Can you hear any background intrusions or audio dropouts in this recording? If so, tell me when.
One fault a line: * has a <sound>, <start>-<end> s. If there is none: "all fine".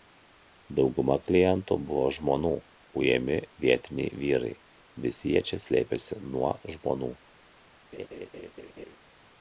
* has a laugh, 7.9-9.0 s